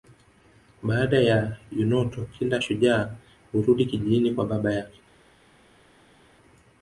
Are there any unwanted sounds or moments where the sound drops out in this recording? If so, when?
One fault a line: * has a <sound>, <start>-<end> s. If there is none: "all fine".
all fine